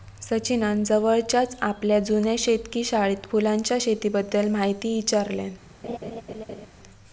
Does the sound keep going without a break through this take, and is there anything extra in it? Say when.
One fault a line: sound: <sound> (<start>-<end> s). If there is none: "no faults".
sound: laugh (5.8-6.7 s)